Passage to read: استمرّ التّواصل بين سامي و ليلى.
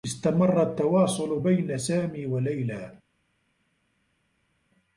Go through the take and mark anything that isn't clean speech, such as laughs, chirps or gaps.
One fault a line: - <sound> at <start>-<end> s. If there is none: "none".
none